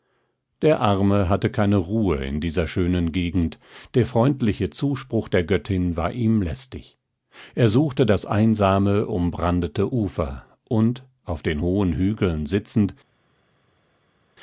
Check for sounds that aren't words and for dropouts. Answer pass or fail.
pass